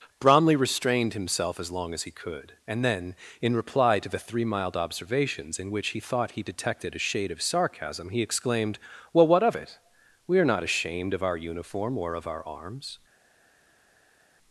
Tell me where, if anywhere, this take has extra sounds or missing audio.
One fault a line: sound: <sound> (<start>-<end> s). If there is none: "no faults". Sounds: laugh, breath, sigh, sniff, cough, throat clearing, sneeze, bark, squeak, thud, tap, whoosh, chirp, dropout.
no faults